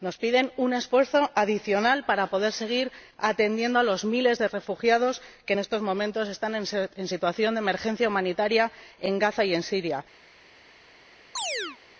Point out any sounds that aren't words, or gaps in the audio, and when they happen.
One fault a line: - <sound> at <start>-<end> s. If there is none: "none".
- chirp at 11.4-11.8 s